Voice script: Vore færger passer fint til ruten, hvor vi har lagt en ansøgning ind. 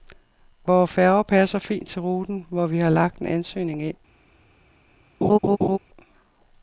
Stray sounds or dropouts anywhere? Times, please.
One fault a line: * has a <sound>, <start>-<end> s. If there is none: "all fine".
* has a laugh, 5.2-5.8 s